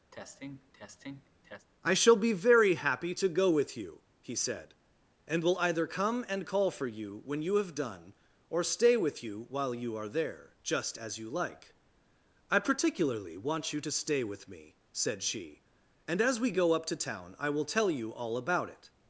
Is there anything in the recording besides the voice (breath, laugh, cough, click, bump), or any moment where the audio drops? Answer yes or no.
yes